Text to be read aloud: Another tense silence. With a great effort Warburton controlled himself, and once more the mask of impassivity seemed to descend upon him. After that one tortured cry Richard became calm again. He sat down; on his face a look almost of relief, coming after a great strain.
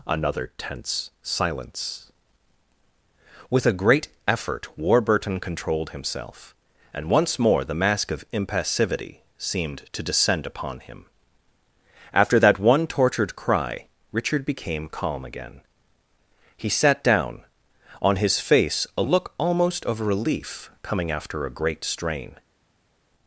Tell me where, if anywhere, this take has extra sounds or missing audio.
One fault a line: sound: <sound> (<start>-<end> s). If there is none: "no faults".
no faults